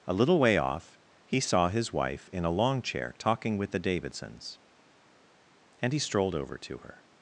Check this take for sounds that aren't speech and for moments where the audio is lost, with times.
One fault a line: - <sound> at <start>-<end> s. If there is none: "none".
none